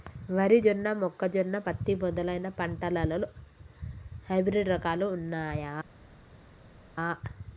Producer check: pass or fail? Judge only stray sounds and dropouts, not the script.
pass